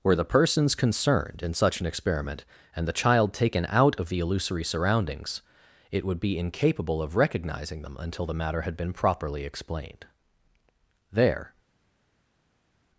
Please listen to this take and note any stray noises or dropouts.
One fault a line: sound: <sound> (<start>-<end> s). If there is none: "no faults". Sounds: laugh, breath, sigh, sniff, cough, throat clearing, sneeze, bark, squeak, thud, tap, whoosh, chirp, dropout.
no faults